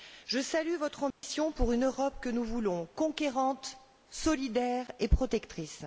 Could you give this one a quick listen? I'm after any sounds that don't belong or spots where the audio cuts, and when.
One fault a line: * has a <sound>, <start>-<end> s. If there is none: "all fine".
* has a dropout, 1.1-1.2 s